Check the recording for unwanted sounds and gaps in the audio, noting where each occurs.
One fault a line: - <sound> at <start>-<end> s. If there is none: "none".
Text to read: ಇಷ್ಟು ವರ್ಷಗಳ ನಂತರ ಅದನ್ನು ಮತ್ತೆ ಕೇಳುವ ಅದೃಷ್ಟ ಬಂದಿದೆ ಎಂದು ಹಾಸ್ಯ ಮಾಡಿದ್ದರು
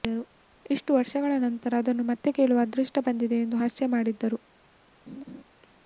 - laugh at 5.1-5.4 s